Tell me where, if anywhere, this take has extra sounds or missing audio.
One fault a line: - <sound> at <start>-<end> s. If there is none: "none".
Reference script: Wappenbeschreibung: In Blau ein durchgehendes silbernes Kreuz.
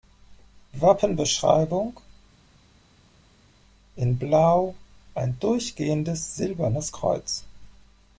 none